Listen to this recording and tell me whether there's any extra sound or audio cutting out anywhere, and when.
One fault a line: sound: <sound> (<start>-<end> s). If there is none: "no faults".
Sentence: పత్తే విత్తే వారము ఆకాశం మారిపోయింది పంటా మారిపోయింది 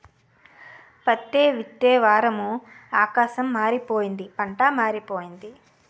no faults